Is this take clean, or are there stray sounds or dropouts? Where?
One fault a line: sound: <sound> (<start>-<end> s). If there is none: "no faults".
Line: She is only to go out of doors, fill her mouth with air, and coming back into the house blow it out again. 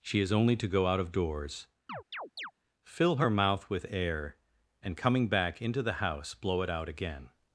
sound: chirp (1.9-2.5 s)